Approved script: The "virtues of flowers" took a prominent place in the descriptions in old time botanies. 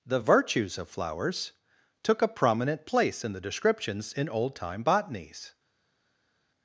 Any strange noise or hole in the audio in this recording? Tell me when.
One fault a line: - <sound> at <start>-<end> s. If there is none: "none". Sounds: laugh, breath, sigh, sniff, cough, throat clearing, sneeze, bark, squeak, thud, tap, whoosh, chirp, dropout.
none